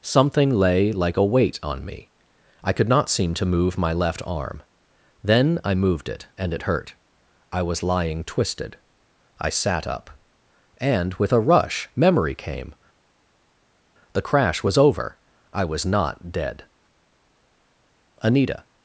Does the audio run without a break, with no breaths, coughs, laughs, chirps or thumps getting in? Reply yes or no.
yes